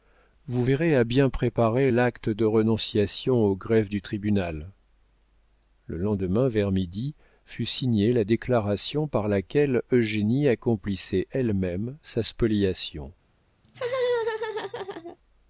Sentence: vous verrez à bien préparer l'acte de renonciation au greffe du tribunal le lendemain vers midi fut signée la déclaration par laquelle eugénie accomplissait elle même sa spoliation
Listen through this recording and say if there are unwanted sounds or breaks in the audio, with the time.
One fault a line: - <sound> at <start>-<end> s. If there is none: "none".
- laugh at 13.6-15.2 s